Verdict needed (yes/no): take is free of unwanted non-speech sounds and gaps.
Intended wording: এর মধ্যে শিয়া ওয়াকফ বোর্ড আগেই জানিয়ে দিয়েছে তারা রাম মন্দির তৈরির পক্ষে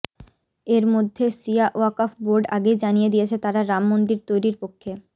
yes